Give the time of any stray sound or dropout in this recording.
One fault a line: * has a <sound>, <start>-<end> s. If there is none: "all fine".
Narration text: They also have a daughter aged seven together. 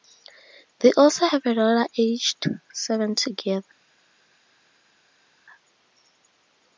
all fine